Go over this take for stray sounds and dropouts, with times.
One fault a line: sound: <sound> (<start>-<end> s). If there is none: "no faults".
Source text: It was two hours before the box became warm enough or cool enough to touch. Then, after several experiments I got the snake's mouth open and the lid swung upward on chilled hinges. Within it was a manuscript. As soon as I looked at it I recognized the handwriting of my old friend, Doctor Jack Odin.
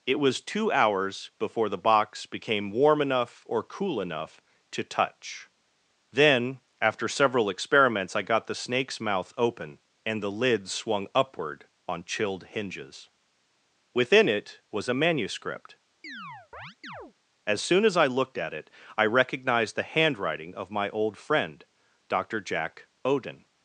sound: chirp (16.0-17.1 s)